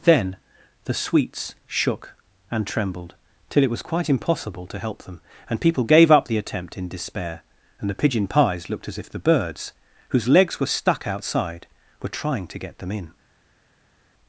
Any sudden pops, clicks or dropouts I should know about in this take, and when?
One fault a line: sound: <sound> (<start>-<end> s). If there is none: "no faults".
no faults